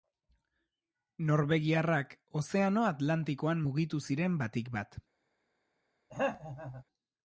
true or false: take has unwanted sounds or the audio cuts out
true